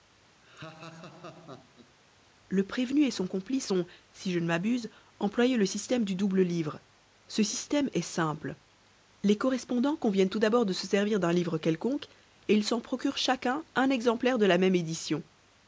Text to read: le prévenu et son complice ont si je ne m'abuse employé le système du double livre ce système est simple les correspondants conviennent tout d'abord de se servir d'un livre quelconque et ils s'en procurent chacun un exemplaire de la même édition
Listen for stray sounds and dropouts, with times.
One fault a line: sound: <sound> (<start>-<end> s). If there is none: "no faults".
sound: laugh (0.4-1.9 s)